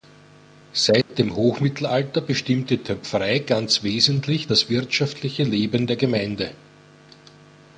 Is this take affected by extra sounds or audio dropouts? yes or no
yes